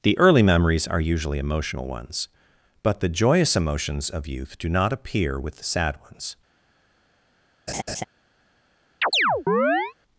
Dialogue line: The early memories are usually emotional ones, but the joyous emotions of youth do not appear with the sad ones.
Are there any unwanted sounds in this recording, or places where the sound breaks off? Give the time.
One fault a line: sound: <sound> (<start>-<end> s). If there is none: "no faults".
sound: laugh (7.7-8.0 s)
sound: chirp (9.0-9.9 s)